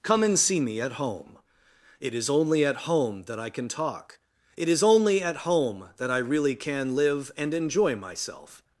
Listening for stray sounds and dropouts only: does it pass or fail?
pass